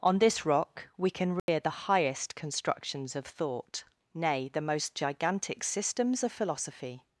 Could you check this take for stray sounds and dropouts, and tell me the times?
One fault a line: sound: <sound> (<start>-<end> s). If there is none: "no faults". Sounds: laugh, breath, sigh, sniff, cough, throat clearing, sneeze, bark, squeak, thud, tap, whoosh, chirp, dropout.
sound: dropout (1.4-1.5 s)